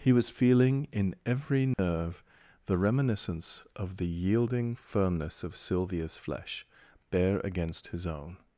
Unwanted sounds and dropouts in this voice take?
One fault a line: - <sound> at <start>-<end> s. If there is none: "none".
- dropout at 1.7-1.8 s